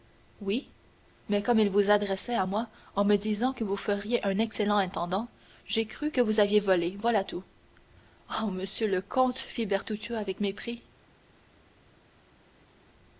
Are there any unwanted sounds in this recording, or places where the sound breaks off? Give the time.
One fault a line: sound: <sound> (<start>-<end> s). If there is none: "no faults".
no faults